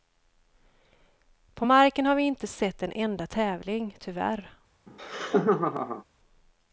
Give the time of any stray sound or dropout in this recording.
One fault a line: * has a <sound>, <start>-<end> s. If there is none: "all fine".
* has a laugh, 4.9-6.0 s